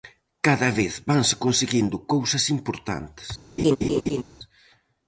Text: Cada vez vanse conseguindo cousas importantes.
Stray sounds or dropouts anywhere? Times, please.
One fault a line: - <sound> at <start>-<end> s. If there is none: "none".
- laugh at 3.6-4.2 s